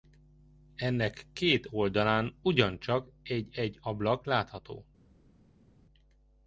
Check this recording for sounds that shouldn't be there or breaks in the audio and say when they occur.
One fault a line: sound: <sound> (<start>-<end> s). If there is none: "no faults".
no faults